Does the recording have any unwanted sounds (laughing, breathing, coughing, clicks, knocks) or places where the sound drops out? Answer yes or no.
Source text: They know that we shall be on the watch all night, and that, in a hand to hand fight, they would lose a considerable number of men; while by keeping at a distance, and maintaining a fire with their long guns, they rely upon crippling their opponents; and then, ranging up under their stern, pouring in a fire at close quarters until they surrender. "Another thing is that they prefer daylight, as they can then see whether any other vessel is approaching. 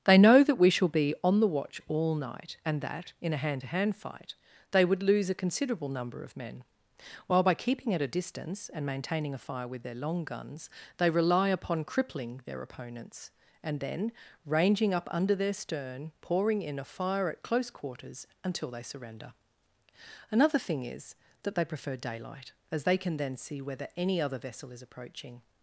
no